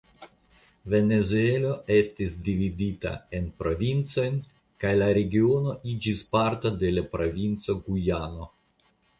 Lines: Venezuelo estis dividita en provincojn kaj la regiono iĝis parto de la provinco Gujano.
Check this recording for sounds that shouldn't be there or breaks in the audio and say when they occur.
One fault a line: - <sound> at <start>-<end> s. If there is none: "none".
none